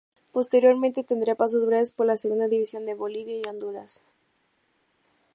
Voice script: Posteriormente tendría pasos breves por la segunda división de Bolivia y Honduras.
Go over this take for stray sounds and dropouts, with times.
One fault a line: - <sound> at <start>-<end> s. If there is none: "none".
none